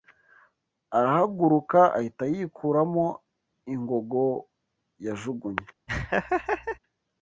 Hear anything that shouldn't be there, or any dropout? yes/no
yes